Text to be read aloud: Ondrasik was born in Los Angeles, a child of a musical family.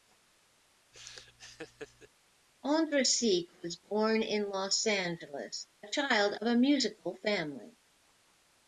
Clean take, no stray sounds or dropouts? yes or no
no